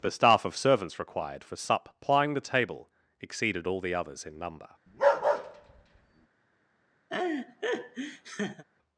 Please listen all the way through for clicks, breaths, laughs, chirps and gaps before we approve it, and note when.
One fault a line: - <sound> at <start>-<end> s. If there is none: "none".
- bark at 4.9-6.3 s
- laugh at 7.1-8.6 s